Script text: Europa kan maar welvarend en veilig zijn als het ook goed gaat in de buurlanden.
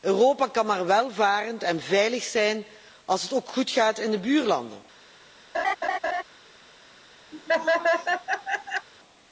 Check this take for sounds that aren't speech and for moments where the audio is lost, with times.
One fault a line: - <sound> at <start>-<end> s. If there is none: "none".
- laugh at 5.5-6.2 s
- laugh at 7.3-8.9 s